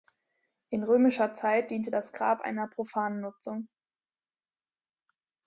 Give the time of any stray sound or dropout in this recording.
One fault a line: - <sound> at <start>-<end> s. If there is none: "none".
none